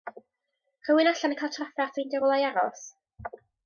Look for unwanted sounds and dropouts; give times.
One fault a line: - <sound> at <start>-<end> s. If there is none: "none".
none